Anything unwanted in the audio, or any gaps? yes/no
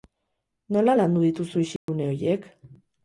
yes